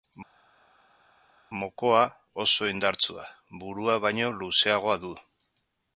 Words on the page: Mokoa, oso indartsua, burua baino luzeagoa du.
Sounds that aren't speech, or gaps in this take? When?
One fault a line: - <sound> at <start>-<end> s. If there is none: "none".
none